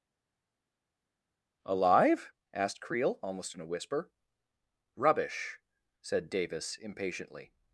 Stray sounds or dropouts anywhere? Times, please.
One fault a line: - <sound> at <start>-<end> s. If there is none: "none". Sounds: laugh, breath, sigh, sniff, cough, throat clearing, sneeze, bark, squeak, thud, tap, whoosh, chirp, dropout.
none